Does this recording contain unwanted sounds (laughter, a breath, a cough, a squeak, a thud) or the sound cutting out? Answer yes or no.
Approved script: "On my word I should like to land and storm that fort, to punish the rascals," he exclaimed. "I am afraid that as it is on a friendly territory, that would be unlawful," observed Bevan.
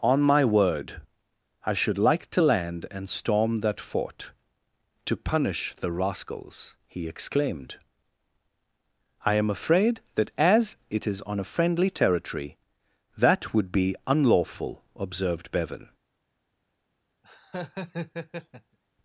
yes